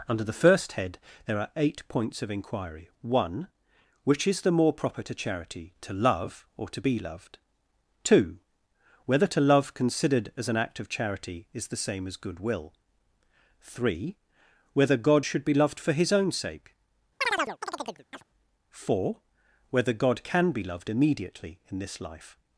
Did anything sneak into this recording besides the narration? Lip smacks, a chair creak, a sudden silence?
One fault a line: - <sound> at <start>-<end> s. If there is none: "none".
- chirp at 17.2-18.2 s